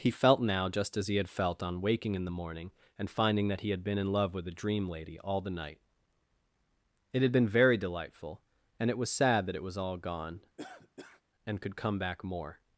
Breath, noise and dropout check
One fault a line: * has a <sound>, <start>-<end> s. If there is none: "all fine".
* has a cough, 10.6-11.2 s